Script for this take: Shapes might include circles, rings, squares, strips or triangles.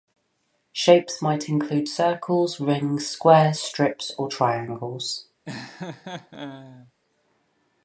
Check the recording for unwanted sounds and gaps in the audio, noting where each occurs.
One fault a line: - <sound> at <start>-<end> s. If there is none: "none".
- laugh at 5.4-6.9 s